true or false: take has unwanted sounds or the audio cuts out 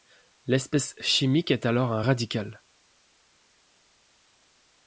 false